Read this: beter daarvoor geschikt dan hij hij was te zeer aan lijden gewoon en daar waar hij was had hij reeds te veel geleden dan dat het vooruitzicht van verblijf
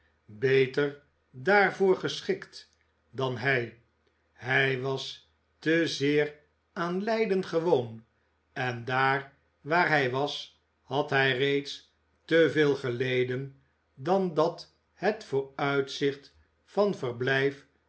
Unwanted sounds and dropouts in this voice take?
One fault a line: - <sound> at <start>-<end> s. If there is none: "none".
none